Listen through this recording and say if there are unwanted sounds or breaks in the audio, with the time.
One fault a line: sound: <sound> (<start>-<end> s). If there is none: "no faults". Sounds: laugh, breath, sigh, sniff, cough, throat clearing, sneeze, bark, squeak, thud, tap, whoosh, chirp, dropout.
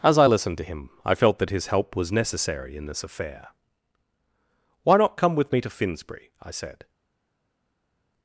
no faults